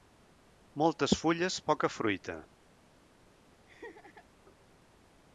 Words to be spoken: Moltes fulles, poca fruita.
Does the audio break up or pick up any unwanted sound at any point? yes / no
yes